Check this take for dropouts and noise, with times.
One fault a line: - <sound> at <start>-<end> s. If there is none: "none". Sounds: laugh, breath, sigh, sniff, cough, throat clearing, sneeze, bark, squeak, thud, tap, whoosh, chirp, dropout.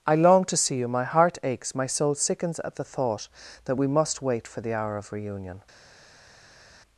none